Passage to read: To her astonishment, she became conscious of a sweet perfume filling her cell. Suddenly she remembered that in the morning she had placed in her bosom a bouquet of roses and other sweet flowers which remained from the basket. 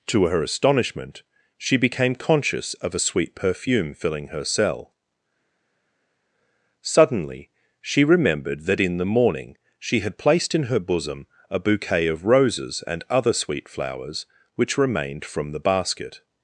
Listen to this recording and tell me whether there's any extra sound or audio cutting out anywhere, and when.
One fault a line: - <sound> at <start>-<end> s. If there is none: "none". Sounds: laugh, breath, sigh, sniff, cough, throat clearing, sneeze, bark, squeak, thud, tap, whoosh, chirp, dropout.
none